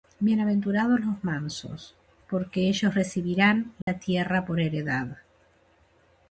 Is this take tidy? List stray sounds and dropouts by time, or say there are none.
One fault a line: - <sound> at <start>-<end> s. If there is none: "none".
- dropout at 3.8-3.9 s